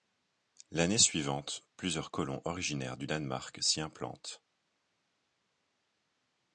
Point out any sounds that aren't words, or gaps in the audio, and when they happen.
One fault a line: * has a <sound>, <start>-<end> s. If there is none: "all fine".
all fine